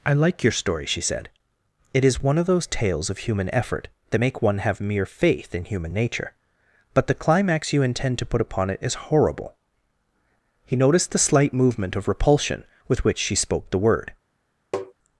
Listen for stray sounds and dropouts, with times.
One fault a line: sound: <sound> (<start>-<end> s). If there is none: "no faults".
sound: tap (14.7-14.9 s)